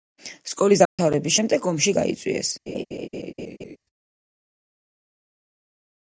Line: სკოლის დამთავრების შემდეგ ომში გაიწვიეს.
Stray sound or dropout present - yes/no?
yes